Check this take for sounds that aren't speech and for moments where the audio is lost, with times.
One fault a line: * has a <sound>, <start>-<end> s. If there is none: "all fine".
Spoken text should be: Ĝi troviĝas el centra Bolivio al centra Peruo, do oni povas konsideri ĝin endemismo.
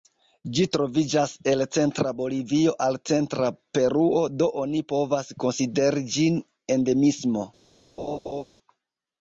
* has a laugh, 8.0-8.4 s